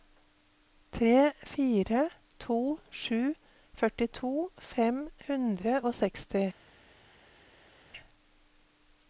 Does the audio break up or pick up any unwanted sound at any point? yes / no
no